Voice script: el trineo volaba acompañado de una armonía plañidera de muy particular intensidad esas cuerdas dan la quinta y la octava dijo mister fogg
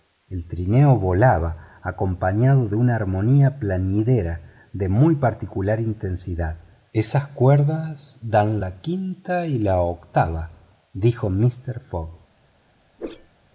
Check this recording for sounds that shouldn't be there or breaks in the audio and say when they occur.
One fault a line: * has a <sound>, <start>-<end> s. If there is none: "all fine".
* has a whoosh, 13.0-13.3 s